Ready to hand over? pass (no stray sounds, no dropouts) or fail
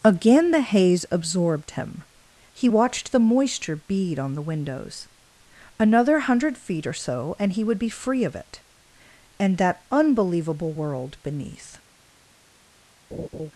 fail